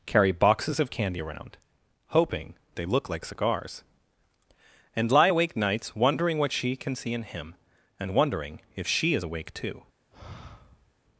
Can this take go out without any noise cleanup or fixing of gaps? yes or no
no